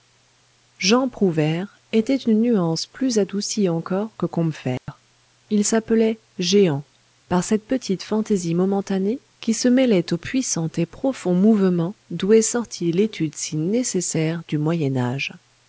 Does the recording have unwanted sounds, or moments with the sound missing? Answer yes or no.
yes